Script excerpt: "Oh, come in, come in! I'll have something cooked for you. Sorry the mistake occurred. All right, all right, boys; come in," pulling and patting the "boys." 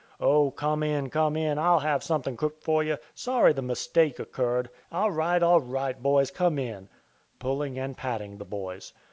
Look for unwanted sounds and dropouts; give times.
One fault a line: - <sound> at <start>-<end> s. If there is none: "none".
none